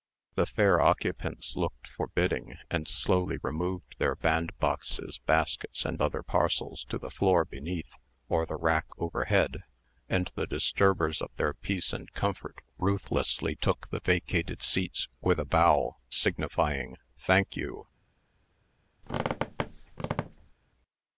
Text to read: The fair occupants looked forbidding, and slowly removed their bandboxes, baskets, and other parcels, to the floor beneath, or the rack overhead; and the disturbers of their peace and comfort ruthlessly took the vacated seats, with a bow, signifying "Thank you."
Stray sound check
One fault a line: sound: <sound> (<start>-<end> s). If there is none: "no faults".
sound: squeak (19.0-20.5 s)